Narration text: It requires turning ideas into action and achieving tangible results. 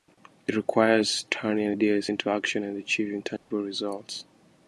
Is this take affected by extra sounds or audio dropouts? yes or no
yes